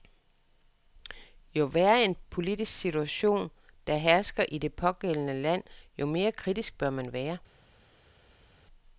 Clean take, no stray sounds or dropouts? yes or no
yes